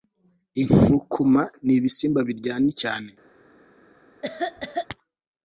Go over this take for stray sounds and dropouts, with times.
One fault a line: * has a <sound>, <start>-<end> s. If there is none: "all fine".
* has a cough, 4.2-4.9 s